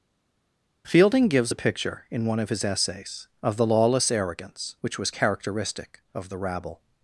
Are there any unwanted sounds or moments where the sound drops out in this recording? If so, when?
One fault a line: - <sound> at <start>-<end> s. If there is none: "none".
none